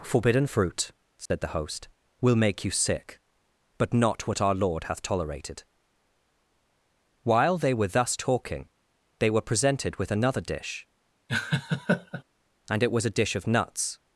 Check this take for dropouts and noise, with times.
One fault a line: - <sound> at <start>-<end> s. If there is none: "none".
- dropout at 1.3-1.3 s
- laugh at 11.3-12.2 s